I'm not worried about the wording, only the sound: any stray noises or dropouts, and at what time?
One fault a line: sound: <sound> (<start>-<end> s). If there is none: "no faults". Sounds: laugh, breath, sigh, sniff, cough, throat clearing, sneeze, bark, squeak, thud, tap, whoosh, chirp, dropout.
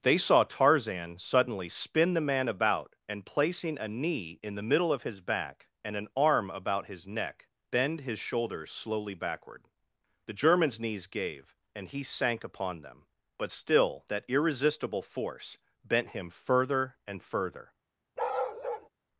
sound: bark (18.2-18.9 s)